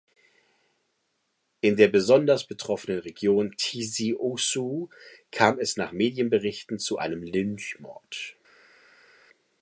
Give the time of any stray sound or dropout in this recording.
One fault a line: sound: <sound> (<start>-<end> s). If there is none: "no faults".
no faults